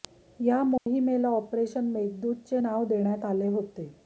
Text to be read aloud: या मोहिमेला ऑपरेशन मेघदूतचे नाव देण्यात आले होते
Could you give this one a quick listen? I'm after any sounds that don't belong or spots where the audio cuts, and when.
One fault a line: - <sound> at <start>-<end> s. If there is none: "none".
- dropout at 0.8-0.9 s